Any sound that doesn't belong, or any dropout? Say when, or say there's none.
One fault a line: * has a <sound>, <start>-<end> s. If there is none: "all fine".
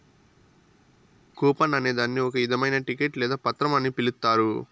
all fine